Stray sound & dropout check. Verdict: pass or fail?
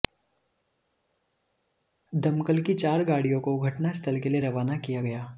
pass